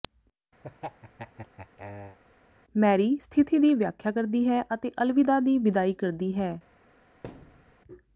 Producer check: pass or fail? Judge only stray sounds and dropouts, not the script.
fail